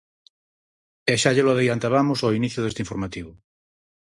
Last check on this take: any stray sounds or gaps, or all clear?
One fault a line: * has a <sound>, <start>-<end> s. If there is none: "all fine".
all fine